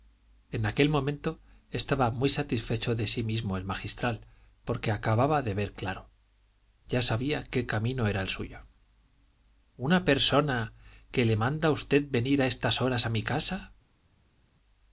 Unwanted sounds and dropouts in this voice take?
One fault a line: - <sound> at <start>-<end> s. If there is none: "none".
none